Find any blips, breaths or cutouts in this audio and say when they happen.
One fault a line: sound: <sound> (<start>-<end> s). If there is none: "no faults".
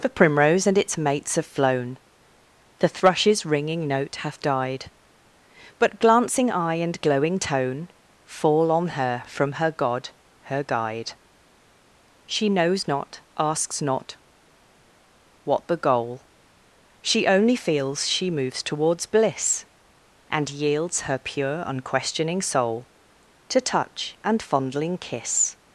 no faults